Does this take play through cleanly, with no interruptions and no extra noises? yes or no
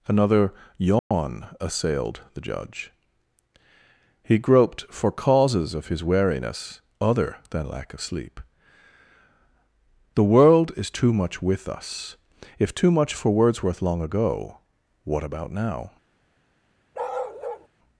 no